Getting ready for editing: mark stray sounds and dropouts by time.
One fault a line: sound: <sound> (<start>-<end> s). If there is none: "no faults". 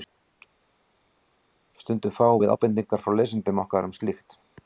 no faults